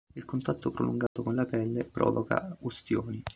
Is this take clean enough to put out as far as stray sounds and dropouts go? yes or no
no